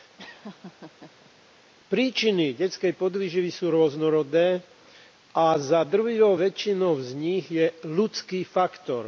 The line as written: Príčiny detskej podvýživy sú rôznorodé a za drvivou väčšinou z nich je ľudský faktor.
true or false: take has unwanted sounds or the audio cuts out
true